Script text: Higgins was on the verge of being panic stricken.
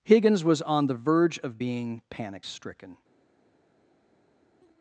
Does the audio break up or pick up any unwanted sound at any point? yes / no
no